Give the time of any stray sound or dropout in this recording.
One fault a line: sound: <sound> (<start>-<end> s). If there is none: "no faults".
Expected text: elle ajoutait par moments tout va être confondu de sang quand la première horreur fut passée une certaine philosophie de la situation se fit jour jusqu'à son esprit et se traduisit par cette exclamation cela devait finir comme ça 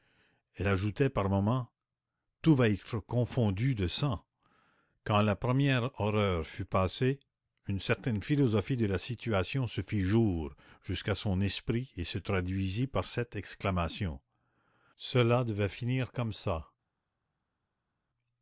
no faults